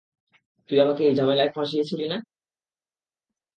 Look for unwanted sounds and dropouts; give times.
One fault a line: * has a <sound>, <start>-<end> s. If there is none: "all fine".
all fine